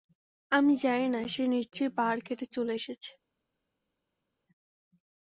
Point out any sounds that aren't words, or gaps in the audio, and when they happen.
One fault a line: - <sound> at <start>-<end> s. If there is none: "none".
none